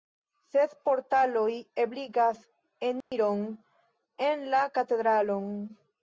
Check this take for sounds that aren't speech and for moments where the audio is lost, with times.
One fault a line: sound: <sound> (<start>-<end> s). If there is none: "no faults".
sound: dropout (3.0-3.1 s)